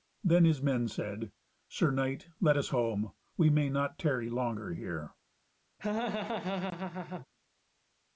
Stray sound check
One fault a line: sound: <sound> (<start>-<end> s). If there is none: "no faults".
sound: laugh (5.8-7.3 s)